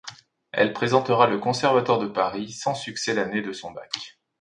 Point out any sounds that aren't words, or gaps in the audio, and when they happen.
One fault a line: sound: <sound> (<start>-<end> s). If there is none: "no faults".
no faults